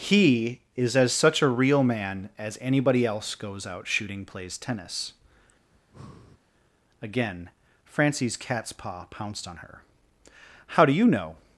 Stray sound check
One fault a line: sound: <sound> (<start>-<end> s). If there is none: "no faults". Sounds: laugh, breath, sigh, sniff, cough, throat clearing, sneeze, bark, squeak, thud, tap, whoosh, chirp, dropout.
sound: breath (5.7-6.4 s)